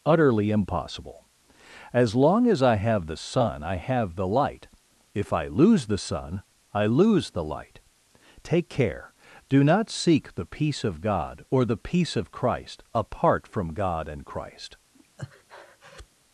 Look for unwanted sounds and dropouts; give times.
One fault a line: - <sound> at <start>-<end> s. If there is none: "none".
- breath at 14.9-16.1 s